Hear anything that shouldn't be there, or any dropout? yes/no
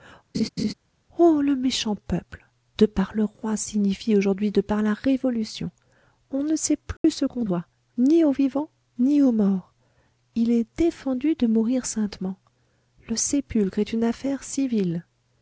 yes